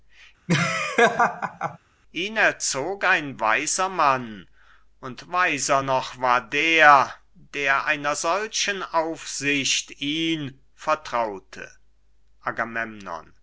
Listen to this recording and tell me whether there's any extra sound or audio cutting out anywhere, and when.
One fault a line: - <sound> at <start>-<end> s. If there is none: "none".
- laugh at 0.5-1.8 s